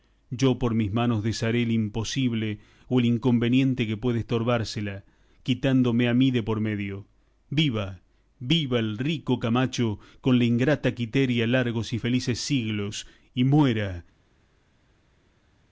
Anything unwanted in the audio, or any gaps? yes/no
no